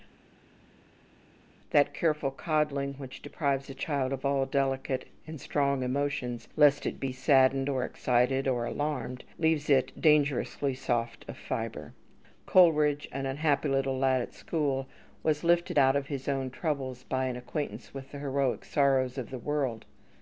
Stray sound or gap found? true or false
false